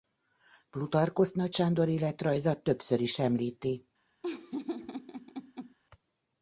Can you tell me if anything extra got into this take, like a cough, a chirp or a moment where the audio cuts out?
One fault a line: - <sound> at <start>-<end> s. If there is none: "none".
- laugh at 4.2-5.8 s